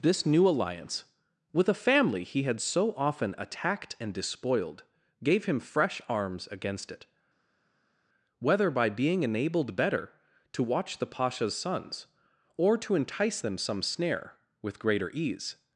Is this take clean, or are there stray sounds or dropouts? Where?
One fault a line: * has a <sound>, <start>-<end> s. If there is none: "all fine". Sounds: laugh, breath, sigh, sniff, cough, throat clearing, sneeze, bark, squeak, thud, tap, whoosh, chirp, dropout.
all fine